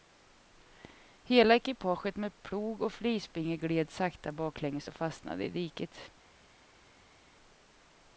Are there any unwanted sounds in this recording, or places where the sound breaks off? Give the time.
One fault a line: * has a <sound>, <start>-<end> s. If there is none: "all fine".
all fine